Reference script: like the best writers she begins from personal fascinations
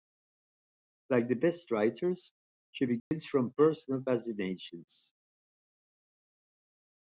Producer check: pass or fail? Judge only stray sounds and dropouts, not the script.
fail